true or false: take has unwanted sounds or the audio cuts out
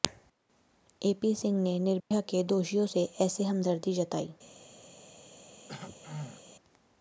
true